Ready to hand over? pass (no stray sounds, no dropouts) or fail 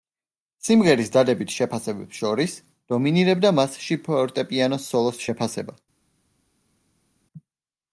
pass